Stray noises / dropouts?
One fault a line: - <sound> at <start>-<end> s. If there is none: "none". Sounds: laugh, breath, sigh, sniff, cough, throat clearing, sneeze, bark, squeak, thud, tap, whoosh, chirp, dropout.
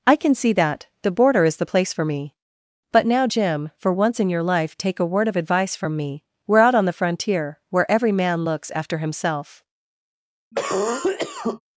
- cough at 10.5-11.6 s